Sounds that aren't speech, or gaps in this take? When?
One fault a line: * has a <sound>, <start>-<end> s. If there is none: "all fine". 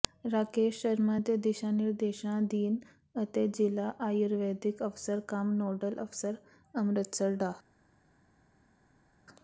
all fine